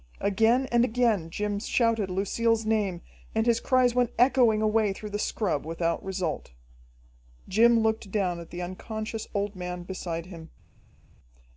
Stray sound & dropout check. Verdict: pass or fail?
pass